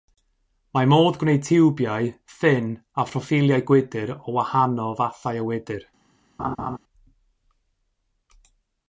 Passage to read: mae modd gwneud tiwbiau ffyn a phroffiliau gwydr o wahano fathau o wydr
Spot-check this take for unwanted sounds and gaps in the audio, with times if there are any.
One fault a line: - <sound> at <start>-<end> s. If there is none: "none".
- laugh at 6.4-6.8 s